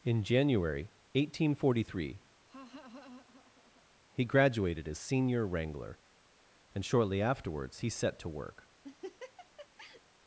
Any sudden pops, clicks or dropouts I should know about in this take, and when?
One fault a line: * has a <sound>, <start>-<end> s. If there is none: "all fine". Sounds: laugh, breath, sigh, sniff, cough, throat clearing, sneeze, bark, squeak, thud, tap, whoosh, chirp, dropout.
* has a laugh, 2.5-3.9 s
* has a laugh, 8.8-10.0 s